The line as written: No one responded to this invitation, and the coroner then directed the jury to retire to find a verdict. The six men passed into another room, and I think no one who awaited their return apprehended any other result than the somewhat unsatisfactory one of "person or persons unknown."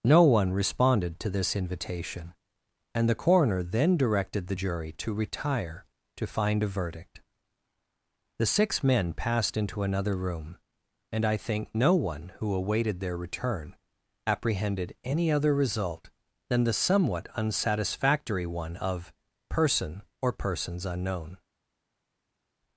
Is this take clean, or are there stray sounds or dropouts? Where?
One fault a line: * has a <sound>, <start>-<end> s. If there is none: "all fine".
all fine